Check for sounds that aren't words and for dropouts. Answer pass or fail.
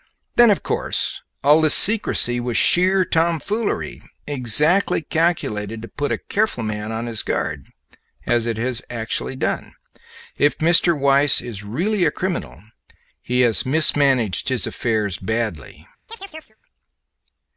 fail